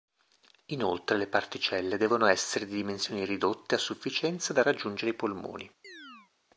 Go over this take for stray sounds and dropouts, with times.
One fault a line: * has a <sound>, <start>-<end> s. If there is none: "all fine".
* has a chirp, 5.8-6.3 s